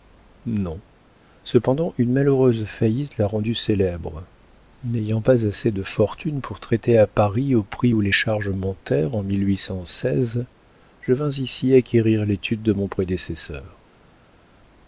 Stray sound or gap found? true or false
false